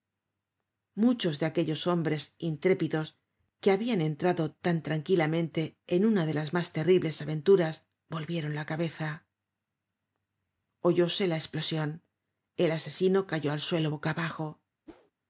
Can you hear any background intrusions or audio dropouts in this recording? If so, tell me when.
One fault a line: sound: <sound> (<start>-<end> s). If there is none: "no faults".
sound: whoosh (14.9-15.1 s)